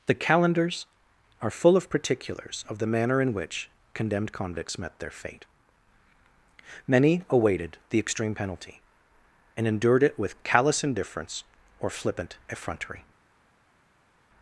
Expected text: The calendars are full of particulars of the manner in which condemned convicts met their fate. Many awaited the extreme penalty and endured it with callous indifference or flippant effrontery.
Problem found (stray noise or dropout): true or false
false